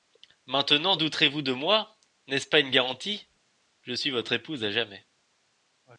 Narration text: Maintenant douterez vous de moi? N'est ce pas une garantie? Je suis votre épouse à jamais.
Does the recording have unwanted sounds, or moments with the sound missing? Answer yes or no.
no